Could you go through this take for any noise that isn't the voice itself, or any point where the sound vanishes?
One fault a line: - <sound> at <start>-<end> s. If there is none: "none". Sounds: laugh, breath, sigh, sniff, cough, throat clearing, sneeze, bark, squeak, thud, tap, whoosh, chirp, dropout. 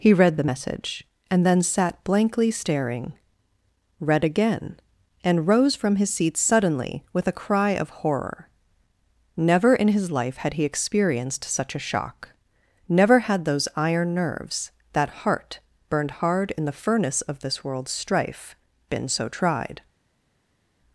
none